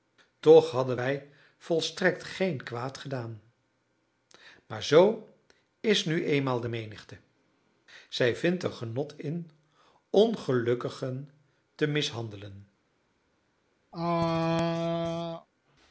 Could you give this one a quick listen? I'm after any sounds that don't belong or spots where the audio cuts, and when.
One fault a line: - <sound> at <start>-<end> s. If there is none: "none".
- throat clearing at 13.9-15.5 s